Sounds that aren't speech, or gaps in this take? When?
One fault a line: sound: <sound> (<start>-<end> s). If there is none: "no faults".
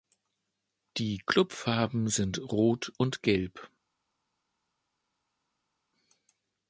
no faults